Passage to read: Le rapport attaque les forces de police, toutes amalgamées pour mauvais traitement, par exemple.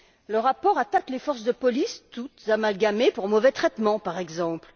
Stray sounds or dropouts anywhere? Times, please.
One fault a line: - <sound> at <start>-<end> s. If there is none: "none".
none